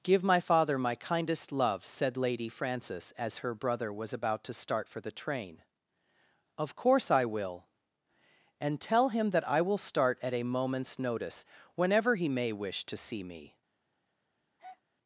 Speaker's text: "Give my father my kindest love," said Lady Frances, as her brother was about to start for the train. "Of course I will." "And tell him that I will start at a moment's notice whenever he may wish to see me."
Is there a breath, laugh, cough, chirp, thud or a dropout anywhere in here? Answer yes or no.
yes